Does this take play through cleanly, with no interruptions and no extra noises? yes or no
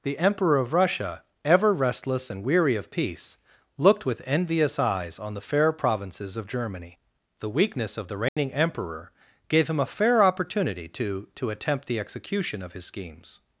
no